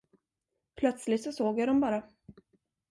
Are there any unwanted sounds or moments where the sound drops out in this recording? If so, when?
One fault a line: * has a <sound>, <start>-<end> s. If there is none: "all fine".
all fine